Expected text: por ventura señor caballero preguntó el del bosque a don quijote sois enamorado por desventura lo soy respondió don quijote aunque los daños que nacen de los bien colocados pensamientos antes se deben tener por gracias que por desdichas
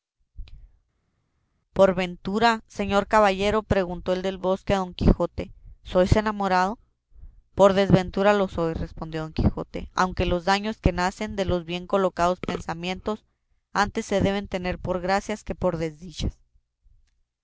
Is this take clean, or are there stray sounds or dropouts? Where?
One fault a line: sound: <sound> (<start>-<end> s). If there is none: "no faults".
no faults